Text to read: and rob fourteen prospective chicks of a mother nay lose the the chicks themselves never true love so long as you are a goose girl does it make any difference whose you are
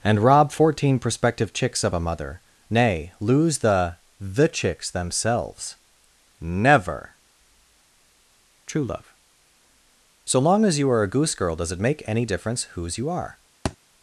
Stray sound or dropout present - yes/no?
yes